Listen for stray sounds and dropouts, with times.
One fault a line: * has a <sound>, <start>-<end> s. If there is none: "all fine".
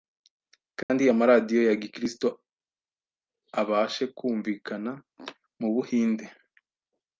* has a dropout, 0.8-0.9 s